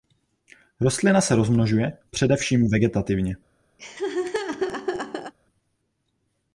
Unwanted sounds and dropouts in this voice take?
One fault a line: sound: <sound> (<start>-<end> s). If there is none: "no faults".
sound: laugh (3.8-5.3 s)